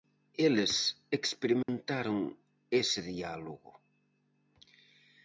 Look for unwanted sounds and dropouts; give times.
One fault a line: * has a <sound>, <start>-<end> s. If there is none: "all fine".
* has a dropout, 1.6-1.7 s